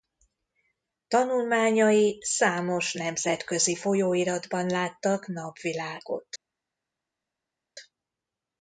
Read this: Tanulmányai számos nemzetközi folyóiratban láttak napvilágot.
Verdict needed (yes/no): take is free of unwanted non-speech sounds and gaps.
yes